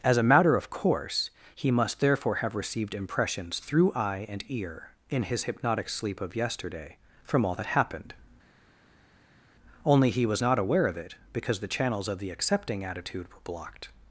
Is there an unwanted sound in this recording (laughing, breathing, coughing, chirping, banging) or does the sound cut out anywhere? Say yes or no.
no